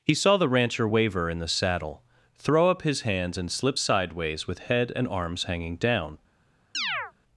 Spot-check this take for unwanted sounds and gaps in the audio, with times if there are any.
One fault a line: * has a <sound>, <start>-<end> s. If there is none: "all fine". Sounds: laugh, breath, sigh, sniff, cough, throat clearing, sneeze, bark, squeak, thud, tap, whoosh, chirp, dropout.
* has a chirp, 6.7-7.1 s